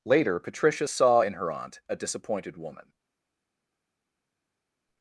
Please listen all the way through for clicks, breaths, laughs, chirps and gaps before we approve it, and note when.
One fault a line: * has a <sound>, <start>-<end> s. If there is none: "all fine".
all fine